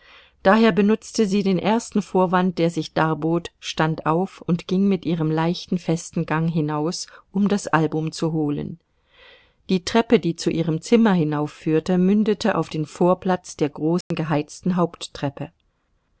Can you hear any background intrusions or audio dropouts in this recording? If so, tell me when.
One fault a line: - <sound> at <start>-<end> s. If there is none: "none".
- dropout at 14.0-14.1 s